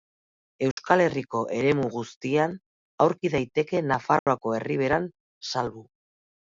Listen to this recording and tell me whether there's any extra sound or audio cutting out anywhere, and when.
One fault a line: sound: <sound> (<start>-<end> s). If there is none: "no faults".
sound: dropout (0.7-0.8 s)
sound: dropout (4.2-4.3 s)